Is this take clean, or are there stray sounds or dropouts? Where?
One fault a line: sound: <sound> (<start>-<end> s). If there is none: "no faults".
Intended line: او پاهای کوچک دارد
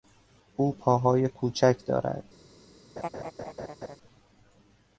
sound: laugh (3.0-4.0 s)